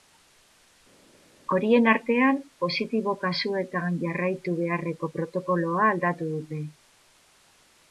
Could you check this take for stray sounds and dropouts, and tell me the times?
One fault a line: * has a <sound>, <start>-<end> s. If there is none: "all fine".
all fine